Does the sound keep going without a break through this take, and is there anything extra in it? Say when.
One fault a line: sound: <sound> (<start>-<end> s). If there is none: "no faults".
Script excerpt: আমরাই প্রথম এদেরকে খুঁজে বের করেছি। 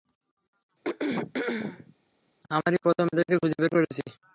sound: throat clearing (0.8-2.0 s)